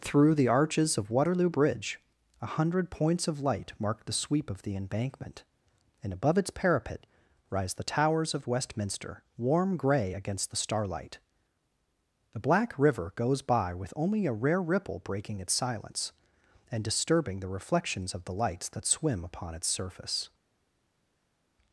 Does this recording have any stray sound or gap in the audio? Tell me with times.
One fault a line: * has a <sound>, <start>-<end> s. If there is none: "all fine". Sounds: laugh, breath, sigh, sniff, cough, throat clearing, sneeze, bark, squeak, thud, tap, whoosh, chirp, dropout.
all fine